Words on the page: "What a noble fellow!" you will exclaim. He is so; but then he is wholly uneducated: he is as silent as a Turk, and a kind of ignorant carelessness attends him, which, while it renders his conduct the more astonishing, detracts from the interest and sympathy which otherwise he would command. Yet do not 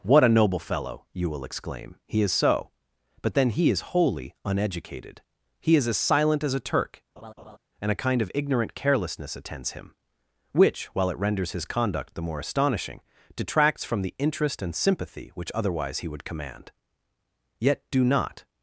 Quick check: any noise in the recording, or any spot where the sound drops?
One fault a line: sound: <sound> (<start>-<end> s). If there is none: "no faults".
sound: laugh (7.2-7.6 s)